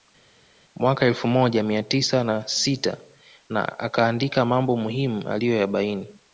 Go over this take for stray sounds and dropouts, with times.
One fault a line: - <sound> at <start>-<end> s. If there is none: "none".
none